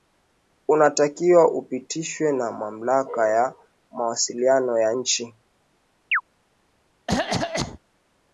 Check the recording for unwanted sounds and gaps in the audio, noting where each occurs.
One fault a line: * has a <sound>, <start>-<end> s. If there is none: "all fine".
* has a chirp, 6.1-6.2 s
* has a cough, 7.1-7.8 s